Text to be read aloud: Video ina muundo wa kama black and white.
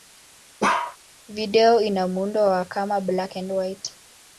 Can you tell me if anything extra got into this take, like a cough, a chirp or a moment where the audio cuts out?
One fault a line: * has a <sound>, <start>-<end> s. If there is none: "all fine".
* has a bark, 0.6-1.0 s